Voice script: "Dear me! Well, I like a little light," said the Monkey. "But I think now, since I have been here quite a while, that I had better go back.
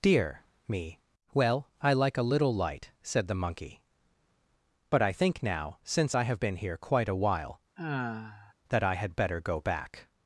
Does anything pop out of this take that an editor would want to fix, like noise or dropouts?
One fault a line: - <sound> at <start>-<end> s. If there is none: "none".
- sigh at 7.8-8.5 s